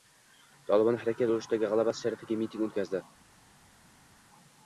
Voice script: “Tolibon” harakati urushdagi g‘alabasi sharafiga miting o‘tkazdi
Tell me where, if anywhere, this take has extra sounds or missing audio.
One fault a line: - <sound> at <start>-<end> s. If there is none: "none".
none